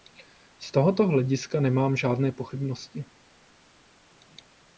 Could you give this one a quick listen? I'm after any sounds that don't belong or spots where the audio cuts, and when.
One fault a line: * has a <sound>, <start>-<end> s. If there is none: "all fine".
all fine